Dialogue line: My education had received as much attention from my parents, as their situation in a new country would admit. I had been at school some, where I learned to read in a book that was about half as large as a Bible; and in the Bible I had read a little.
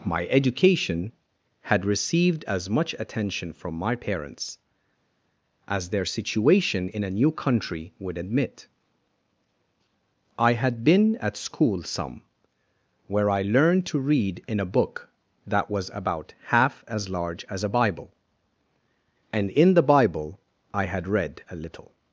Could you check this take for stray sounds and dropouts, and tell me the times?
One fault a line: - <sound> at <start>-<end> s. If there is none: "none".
none